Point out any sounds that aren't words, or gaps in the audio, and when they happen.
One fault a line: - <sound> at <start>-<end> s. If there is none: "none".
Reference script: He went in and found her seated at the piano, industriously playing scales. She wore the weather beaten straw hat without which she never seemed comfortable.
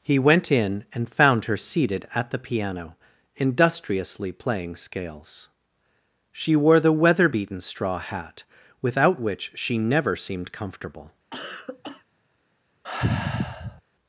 - cough at 11.3-12.0 s
- sigh at 12.8-13.8 s